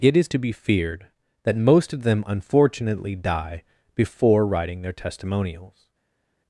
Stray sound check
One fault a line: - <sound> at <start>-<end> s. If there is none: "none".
none